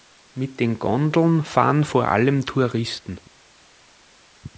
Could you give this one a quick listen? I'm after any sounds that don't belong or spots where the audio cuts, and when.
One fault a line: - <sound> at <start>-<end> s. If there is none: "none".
none